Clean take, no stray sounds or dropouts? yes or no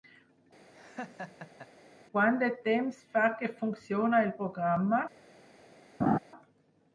no